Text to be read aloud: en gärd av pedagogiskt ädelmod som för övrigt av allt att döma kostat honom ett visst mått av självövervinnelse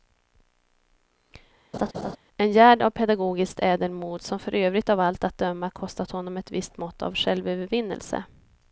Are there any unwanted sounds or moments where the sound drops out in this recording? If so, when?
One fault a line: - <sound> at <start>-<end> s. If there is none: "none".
- laugh at 1.7-2.2 s